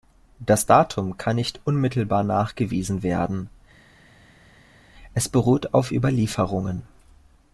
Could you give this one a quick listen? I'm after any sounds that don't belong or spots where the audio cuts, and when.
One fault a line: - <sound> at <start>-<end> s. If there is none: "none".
none